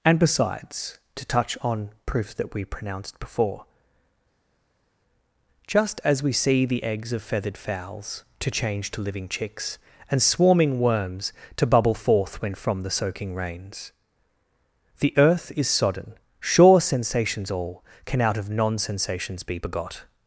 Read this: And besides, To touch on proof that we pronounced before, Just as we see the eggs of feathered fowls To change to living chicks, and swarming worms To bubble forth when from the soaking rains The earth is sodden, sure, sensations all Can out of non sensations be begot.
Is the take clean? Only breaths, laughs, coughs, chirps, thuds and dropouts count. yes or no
yes